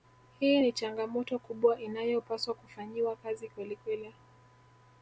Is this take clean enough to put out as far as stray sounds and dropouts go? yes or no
yes